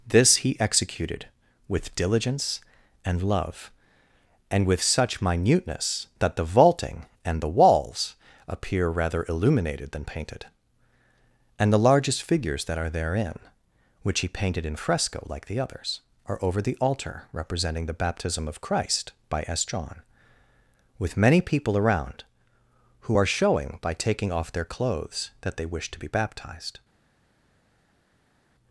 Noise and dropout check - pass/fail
pass